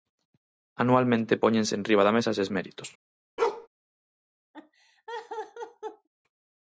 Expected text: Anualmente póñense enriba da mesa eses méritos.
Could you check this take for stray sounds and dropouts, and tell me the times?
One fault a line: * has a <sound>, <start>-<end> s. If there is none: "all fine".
* has a bark, 3.4-3.7 s
* has a laugh, 4.5-6.1 s